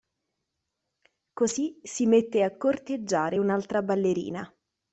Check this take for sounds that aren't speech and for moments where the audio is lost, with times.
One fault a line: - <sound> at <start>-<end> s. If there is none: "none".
none